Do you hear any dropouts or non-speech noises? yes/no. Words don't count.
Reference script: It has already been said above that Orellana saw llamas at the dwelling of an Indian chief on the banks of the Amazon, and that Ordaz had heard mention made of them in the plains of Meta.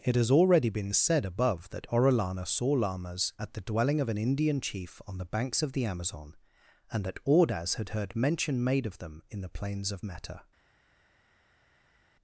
no